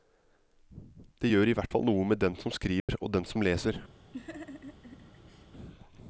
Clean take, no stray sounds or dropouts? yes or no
no